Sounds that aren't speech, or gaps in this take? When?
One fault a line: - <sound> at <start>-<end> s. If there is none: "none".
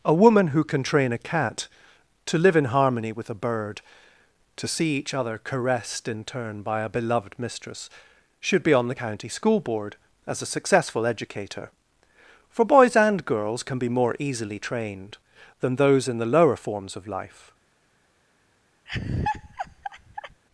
- laugh at 18.9-20.4 s